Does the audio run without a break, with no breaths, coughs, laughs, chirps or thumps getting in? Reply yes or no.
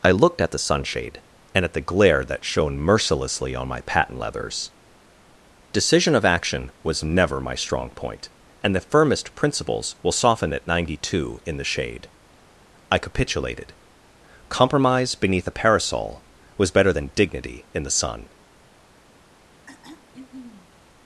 no